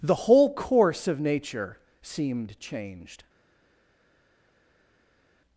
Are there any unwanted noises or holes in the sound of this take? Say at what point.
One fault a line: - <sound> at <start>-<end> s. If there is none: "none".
none